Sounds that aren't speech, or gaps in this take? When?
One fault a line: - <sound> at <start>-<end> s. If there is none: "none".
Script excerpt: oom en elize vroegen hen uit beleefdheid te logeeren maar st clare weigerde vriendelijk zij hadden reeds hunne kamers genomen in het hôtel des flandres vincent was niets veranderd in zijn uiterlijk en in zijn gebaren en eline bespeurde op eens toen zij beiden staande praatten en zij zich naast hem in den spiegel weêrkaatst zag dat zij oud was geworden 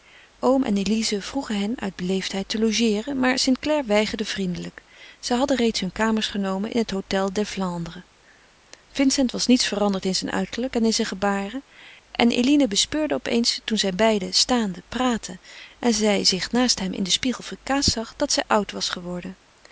none